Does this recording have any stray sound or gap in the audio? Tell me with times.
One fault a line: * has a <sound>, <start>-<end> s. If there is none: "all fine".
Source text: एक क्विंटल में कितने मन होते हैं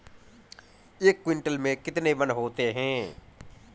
all fine